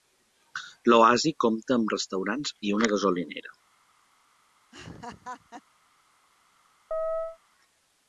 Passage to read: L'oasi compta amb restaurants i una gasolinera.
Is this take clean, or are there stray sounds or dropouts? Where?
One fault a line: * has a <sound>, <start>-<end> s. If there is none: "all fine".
* has a laugh, 4.7-5.6 s
* has a chirp, 6.9-7.4 s